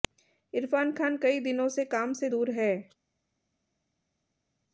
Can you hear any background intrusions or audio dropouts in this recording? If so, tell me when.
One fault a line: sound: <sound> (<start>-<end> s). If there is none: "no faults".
no faults